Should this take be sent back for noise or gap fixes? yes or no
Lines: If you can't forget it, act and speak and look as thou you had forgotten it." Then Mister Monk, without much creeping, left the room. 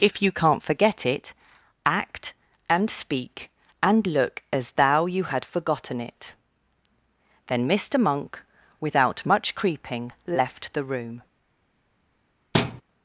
yes